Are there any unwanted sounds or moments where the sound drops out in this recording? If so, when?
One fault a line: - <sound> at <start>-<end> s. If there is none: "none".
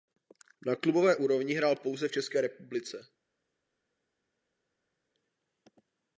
none